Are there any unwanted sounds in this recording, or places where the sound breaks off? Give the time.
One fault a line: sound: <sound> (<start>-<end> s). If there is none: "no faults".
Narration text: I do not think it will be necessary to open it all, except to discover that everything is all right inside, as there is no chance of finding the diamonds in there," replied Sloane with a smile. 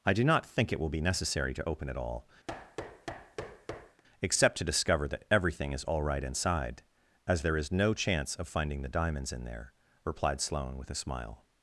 sound: thud (2.5-4.0 s)